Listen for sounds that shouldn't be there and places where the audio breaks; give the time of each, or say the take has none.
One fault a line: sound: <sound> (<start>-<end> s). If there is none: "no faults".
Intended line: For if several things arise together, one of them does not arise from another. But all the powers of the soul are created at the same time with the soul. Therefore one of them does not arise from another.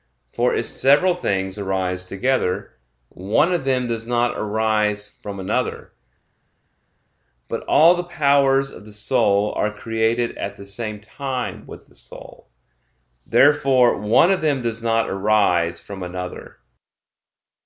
no faults